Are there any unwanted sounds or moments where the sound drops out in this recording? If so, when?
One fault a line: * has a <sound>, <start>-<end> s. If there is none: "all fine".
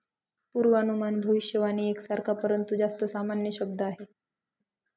all fine